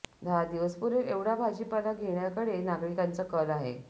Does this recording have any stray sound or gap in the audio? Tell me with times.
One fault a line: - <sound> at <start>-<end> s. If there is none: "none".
none